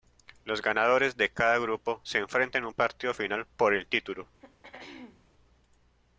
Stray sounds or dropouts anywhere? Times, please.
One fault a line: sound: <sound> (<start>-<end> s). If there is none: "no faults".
sound: throat clearing (4.4-5.3 s)